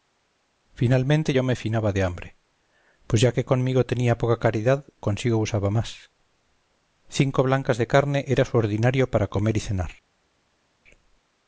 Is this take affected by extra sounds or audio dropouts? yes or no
no